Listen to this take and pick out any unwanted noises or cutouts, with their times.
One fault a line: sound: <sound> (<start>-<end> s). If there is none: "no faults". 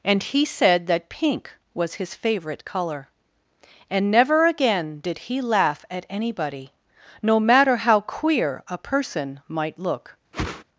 sound: whoosh (10.3-10.6 s)